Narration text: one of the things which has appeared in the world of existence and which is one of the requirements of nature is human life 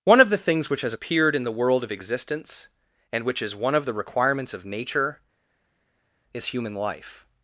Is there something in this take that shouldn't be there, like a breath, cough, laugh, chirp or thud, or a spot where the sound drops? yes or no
no